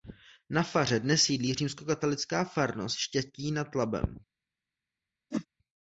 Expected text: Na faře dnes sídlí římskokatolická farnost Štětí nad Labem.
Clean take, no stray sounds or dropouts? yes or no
no